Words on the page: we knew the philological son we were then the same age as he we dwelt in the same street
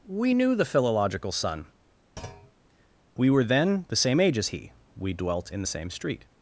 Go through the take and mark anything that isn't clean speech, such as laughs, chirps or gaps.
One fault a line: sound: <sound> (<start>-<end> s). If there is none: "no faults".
sound: thud (2.2-2.5 s)